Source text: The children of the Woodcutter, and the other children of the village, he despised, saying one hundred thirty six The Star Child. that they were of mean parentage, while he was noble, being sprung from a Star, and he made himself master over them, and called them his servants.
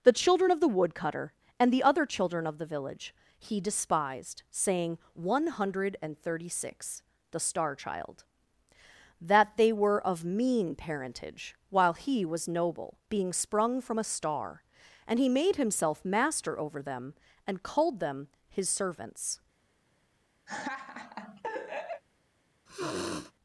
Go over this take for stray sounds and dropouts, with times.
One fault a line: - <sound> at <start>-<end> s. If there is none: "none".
- laugh at 20.5-22.0 s
- sniff at 22.7-23.3 s